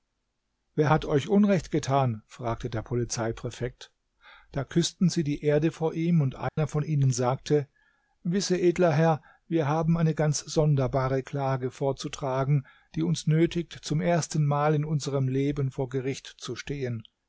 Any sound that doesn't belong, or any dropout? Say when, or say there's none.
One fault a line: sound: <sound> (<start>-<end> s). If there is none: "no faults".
sound: dropout (6.5-6.6 s)